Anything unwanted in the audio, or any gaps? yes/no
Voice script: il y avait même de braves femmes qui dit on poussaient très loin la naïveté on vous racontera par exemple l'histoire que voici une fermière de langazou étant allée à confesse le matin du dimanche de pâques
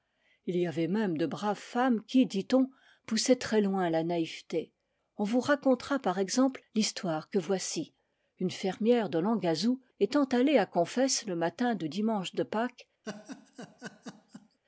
yes